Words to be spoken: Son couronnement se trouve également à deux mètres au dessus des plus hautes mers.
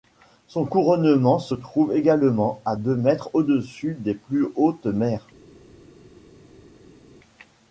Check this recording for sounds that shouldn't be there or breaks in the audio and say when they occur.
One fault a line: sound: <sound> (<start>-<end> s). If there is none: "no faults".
no faults